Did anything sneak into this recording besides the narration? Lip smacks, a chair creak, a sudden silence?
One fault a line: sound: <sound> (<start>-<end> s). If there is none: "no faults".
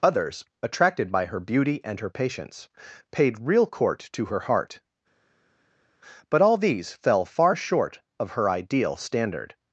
no faults